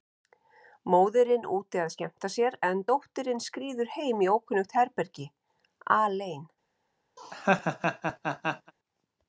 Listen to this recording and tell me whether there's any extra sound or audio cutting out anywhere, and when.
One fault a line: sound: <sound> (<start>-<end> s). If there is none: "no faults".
sound: laugh (7.2-8.7 s)